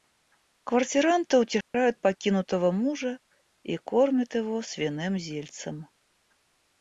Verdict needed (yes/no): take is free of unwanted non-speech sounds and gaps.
no